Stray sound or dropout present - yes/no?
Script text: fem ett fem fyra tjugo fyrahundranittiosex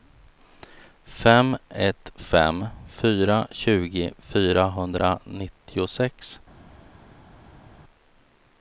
no